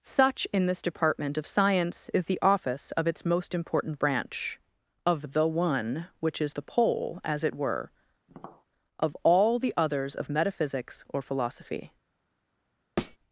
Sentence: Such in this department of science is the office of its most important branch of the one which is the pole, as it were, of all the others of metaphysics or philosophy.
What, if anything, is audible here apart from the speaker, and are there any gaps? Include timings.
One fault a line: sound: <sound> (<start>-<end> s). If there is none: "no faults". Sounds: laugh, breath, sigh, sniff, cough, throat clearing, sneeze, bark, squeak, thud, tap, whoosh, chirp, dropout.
sound: tap (8.3-8.6 s)
sound: thud (13.0-13.2 s)